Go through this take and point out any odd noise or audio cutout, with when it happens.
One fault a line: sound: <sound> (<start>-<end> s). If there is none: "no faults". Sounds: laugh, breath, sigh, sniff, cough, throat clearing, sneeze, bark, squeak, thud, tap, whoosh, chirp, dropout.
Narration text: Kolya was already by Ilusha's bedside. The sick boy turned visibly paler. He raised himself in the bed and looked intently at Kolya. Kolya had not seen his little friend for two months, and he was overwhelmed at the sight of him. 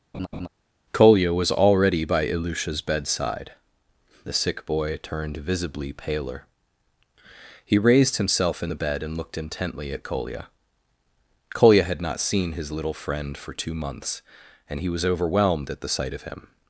sound: laugh (0.1-0.5 s)